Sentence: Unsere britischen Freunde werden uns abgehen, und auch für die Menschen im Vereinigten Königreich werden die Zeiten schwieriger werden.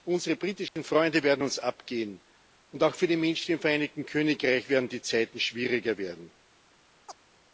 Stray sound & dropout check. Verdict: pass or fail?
fail